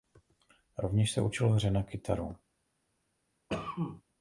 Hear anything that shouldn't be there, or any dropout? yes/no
yes